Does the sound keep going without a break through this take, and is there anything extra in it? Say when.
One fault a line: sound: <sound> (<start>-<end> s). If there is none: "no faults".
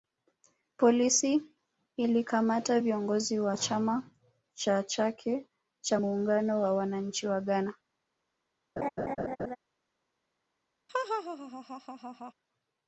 sound: laugh (8.8-9.6 s)
sound: laugh (10.9-12.3 s)